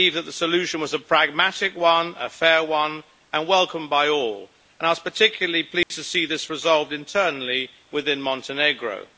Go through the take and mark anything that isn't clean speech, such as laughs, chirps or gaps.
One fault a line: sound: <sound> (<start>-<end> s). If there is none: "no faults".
sound: dropout (5.8-5.9 s)